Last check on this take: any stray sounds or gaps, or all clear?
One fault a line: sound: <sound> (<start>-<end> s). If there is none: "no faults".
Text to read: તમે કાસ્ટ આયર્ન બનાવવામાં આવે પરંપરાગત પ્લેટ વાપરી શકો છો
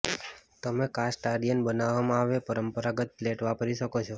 no faults